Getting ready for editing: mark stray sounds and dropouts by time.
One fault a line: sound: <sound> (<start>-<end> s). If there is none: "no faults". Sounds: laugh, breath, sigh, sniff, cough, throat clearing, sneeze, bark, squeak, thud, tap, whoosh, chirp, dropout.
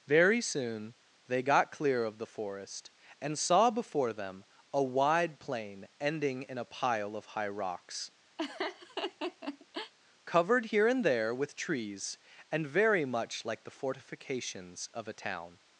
sound: laugh (8.4-9.9 s)